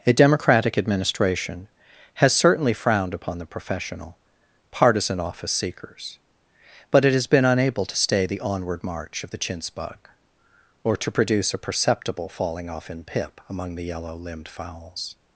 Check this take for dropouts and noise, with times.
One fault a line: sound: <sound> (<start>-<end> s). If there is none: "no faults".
no faults